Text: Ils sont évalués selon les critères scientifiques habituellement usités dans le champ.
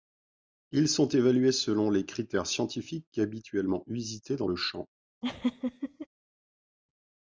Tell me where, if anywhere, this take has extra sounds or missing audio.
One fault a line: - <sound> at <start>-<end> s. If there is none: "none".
- laugh at 5.2-6.1 s